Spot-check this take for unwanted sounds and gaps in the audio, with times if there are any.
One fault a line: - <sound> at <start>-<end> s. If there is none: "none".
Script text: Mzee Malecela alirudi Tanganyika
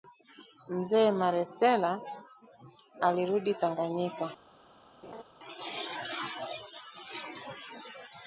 - laugh at 5.0-5.2 s